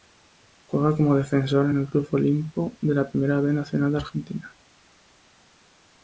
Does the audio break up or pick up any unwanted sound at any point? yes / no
no